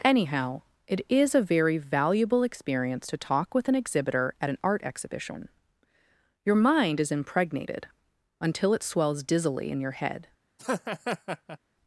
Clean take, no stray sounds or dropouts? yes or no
no